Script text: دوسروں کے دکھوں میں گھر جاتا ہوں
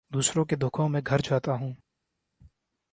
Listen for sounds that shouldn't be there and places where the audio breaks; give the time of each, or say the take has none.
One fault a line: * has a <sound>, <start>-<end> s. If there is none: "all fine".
all fine